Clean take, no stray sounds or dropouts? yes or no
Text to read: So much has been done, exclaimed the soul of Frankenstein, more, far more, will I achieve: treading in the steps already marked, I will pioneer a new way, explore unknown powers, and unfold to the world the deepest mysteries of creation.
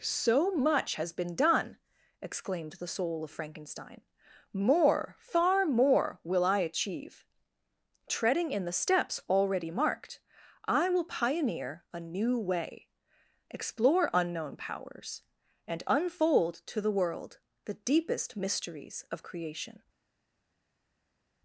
yes